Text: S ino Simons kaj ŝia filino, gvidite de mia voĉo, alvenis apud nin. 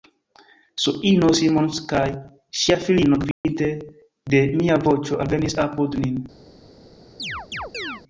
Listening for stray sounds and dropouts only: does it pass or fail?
fail